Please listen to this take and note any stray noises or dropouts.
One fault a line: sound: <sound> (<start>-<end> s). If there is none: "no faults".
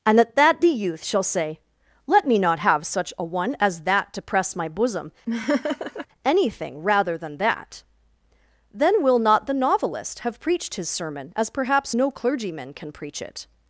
sound: laugh (5.3-6.1 s)